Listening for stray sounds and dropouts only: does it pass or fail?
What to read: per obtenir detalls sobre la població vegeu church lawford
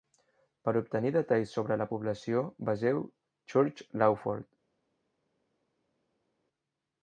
pass